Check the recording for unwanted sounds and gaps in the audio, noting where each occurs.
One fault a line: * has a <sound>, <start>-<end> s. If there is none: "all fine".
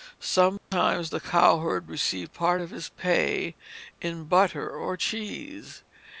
* has a dropout, 0.6-0.7 s